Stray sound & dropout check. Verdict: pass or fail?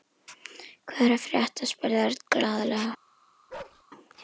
fail